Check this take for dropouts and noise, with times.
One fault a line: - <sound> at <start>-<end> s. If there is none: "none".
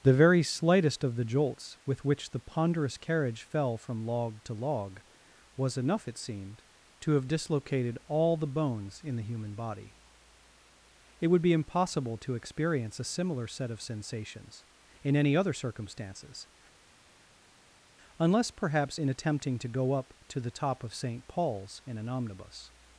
none